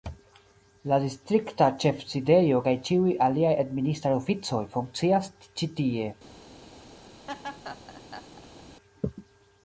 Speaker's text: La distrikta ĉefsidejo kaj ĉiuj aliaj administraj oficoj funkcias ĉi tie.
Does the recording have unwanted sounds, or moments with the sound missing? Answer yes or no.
yes